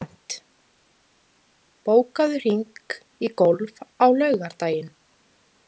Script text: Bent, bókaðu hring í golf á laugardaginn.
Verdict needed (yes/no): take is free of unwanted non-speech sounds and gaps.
yes